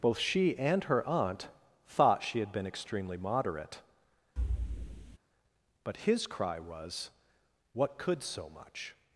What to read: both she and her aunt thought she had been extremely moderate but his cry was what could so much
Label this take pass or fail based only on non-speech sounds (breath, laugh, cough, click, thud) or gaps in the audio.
fail